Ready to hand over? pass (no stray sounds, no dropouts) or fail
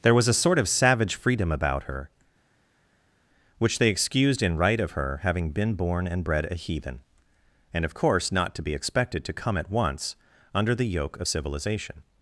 pass